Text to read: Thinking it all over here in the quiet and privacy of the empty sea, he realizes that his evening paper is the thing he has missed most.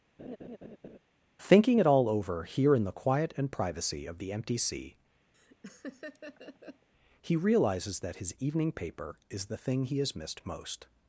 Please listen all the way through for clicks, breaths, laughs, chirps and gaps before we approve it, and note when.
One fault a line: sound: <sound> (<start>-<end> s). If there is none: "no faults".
sound: laugh (0.2-1.0 s)
sound: laugh (5.3-6.9 s)